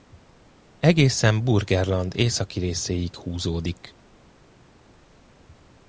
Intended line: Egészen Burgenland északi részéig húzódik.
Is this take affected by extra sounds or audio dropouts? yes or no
no